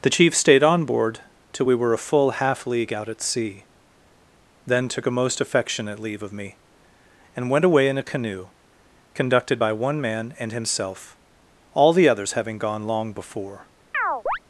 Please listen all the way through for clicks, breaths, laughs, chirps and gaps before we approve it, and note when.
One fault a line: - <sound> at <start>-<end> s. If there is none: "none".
- chirp at 13.9-14.4 s